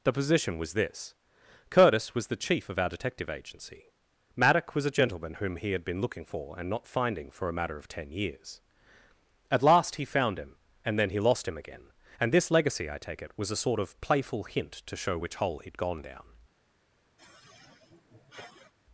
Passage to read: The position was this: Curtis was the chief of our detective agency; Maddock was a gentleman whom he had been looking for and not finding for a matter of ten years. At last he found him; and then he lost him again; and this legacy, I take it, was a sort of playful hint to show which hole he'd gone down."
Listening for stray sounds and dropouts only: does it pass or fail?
fail